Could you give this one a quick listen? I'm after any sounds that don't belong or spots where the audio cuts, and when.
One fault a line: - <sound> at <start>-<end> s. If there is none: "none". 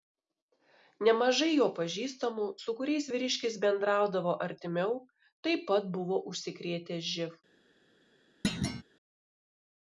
- thud at 8.4-8.8 s